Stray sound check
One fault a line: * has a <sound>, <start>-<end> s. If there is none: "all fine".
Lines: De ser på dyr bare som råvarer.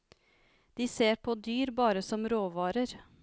all fine